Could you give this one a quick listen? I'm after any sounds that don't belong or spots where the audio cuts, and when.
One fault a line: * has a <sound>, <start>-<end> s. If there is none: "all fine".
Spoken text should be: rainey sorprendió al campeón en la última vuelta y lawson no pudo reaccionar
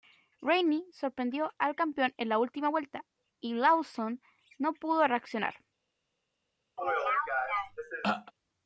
* has a throat clearing, 6.8-8.3 s